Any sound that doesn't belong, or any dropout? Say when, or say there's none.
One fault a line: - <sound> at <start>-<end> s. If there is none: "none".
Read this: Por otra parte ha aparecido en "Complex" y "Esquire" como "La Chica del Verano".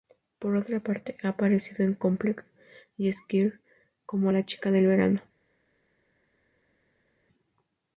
none